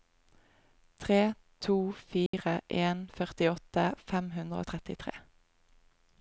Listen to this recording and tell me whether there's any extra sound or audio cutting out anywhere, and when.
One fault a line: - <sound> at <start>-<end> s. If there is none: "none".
- dropout at 2.3-2.3 s